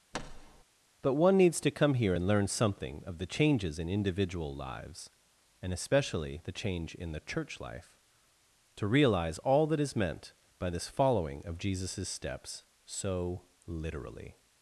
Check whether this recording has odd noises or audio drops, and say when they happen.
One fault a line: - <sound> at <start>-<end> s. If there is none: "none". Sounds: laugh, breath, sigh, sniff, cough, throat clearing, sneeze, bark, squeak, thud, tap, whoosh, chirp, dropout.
- thud at 0.1-0.6 s